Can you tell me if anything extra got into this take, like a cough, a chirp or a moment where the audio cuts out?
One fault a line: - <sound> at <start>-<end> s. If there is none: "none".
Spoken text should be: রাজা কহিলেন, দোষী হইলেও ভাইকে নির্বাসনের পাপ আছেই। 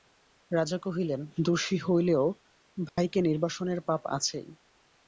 - dropout at 2.9-3.0 s